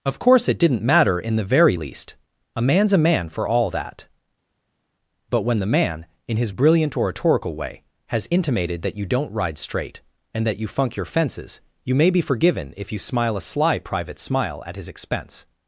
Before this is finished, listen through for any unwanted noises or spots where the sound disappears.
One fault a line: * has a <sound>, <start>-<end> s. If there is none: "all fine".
all fine